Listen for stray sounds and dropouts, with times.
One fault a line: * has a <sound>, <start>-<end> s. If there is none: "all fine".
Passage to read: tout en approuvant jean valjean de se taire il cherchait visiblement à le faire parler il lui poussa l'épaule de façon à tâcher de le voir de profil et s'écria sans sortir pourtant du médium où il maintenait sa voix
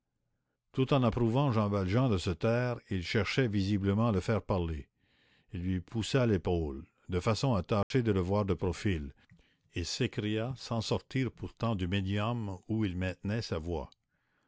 * has a dropout, 7.8-7.9 s